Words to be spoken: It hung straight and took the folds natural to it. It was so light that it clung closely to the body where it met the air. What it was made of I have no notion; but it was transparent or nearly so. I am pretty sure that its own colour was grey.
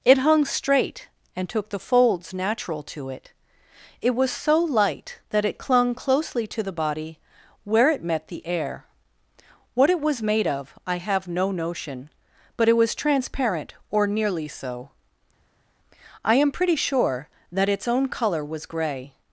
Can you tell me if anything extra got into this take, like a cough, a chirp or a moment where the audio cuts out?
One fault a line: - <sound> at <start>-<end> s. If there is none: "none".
none